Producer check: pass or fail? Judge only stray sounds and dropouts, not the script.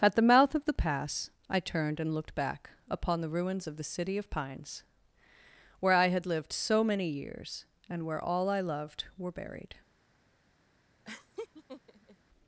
fail